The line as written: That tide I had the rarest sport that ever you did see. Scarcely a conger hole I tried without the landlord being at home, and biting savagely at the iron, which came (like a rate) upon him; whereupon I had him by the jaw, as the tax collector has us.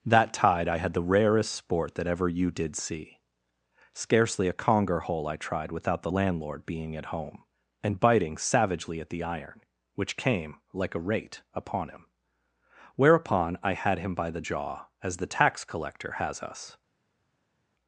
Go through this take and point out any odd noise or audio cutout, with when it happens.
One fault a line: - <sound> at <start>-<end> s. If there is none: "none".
none